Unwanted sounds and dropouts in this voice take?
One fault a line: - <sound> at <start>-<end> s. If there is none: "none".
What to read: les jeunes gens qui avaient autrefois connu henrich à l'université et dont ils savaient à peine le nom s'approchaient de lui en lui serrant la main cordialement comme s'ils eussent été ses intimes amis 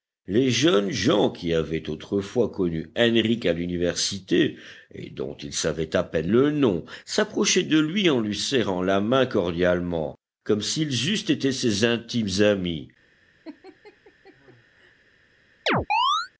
- laugh at 13.4-14.9 s
- chirp at 15.7-16.3 s